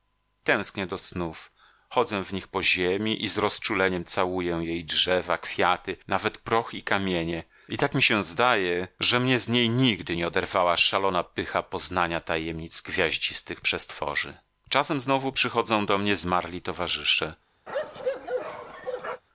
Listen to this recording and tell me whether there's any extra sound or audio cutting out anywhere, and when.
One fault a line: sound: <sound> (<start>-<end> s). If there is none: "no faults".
sound: bark (17.7-19.2 s)